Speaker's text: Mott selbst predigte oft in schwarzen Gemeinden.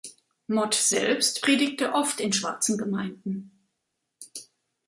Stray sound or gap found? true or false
false